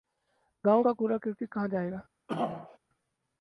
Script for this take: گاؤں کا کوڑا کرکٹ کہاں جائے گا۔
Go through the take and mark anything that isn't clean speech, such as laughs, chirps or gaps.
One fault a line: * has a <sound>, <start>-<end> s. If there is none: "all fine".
* has a throat clearing, 2.3-2.8 s